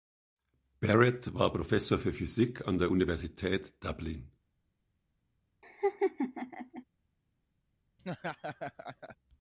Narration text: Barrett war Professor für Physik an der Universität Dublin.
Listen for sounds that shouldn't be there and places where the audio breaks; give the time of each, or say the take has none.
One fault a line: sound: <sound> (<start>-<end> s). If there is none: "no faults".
sound: laugh (5.6-6.8 s)
sound: laugh (8.0-9.2 s)